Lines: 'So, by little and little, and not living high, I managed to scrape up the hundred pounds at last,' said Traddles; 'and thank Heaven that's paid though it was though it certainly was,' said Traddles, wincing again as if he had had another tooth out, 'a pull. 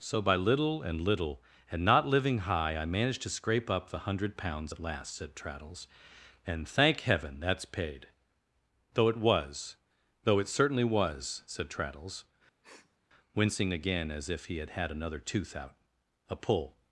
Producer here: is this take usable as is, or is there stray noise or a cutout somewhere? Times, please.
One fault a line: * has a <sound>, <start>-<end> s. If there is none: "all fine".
* has a sniff, 12.6-13.0 s